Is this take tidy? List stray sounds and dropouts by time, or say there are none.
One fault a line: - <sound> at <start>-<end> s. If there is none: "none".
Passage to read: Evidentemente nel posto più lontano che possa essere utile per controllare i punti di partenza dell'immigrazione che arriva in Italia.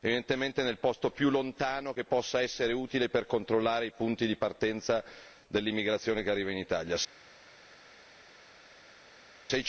none